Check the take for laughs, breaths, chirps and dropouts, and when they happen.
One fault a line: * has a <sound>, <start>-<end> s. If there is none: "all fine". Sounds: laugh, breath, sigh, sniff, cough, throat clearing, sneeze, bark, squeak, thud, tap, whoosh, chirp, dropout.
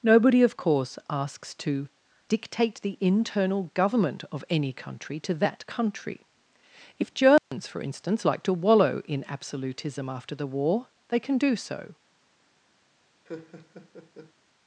* has a dropout, 7.4-7.5 s
* has a laugh, 13.3-14.3 s